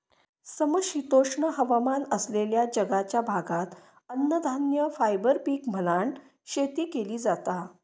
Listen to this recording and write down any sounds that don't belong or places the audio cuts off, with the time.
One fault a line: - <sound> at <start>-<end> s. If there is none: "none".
none